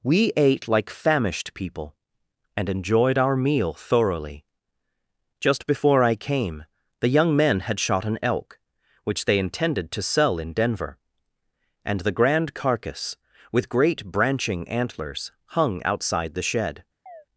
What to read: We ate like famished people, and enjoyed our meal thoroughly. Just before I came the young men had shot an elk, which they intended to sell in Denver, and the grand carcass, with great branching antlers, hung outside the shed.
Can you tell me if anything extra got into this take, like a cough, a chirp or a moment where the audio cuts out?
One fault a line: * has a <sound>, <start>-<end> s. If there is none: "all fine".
* has a chirp, 17.1-17.3 s